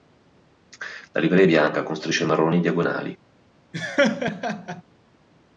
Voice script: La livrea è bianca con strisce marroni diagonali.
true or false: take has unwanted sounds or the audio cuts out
true